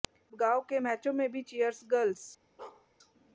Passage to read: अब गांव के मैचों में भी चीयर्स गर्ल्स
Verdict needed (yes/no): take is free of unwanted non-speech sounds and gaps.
no